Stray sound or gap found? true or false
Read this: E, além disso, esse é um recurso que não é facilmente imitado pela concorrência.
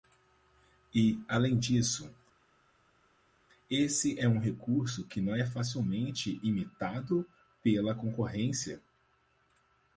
false